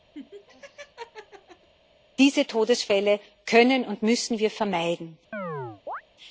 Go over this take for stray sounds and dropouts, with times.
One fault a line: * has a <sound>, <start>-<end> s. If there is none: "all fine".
* has a laugh, 0.1-1.7 s
* has a chirp, 5.3-6.0 s